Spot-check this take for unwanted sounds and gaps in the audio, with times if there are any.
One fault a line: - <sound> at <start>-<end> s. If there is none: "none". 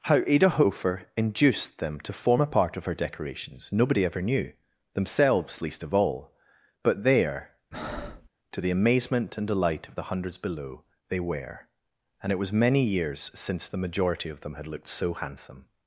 - breath at 7.7-8.3 s